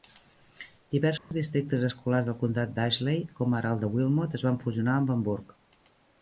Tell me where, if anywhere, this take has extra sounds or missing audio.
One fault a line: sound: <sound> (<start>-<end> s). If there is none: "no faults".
sound: dropout (1.2-1.3 s)